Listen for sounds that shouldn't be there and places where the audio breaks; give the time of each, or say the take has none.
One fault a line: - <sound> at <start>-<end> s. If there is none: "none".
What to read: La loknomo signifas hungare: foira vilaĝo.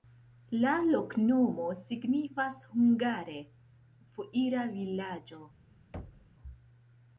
- thud at 5.9-6.3 s